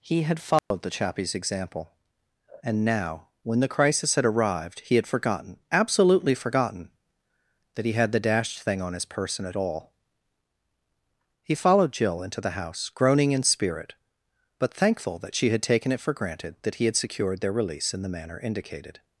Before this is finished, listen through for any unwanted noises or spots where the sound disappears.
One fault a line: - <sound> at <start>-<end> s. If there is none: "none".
- dropout at 0.6-0.7 s